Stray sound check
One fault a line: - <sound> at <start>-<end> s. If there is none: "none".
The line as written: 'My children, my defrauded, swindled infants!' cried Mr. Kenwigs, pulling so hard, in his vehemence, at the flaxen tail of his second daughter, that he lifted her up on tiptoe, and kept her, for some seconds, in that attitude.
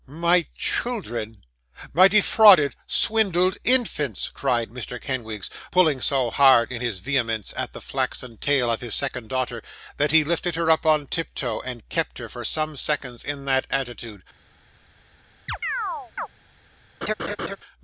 - chirp at 15.5-16.3 s
- laugh at 17.0-17.6 s